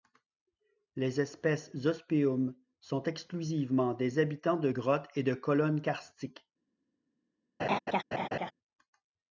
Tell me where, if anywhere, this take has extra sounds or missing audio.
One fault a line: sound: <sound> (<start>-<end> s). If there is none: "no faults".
sound: laugh (7.6-8.5 s)